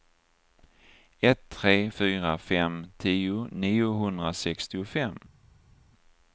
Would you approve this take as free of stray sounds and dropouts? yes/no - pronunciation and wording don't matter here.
yes